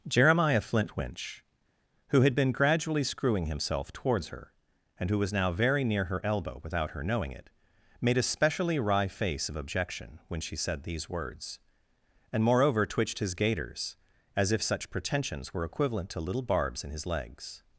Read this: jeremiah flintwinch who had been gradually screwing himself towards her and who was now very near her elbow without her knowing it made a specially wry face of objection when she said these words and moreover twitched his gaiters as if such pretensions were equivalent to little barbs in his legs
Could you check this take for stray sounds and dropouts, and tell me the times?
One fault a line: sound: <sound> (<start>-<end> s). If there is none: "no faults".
no faults